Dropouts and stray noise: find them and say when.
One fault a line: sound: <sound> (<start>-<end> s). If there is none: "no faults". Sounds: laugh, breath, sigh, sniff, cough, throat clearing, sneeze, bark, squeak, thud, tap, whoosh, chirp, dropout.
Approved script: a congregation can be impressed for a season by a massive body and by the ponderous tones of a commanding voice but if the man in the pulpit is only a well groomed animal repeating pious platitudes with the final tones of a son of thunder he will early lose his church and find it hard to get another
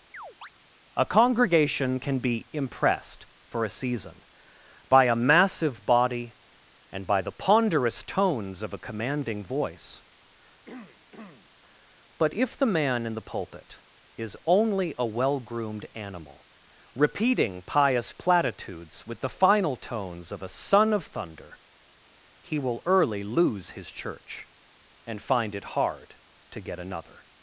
sound: chirp (0.1-0.5 s)
sound: throat clearing (10.6-11.5 s)